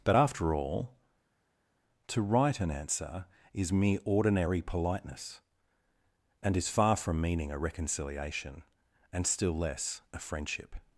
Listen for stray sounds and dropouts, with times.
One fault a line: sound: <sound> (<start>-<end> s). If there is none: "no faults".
no faults